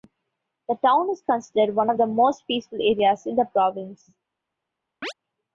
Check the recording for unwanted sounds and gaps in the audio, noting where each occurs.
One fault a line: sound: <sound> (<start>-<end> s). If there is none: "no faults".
sound: chirp (5.0-5.1 s)